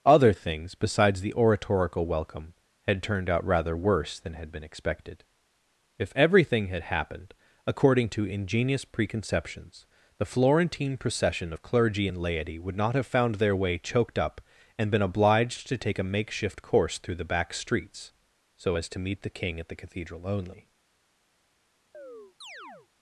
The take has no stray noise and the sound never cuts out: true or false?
false